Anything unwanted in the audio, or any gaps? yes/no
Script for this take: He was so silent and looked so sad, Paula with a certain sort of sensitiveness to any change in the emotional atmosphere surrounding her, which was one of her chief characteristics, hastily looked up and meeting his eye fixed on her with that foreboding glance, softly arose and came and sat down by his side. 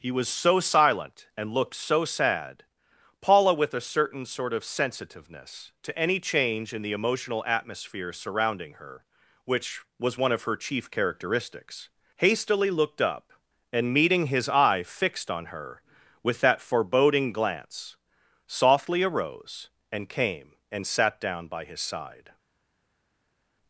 no